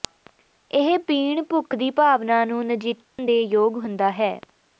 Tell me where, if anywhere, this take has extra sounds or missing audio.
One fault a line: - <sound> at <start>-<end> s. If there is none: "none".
- dropout at 3.0-3.2 s